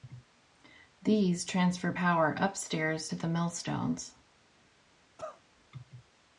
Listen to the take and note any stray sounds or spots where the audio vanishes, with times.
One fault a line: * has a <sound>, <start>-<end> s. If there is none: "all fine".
* has a cough, 5.2-5.4 s